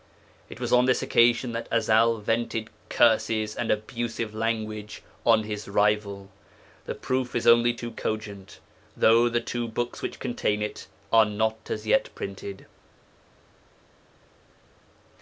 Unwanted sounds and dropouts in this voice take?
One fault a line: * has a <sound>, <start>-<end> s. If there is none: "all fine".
all fine